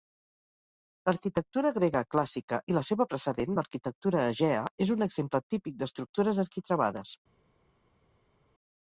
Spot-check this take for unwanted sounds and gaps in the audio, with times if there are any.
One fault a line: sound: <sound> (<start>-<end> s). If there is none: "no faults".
no faults